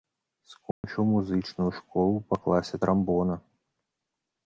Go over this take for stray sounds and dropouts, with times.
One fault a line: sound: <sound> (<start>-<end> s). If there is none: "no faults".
sound: dropout (0.7-0.8 s)